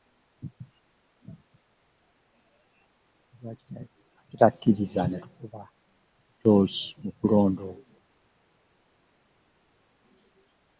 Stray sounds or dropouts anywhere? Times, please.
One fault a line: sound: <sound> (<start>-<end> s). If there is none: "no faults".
no faults